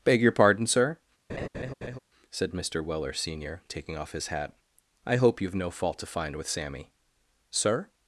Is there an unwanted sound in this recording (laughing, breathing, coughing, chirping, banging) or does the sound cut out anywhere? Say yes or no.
yes